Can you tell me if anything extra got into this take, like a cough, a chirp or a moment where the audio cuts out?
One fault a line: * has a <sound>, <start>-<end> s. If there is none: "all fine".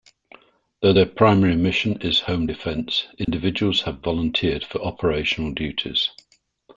* has a dropout, 3.2-3.3 s